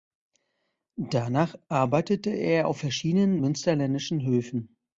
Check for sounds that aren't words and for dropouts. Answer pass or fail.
pass